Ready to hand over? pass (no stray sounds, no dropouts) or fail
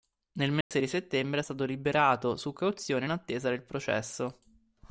fail